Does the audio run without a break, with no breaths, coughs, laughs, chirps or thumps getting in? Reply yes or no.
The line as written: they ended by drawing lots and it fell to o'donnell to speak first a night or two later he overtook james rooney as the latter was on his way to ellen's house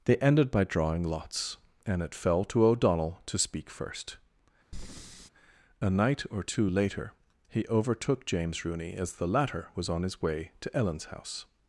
no